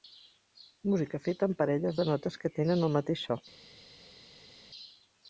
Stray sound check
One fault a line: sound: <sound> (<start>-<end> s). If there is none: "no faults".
no faults